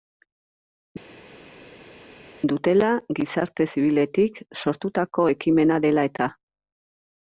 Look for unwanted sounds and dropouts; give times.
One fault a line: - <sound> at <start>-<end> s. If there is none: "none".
none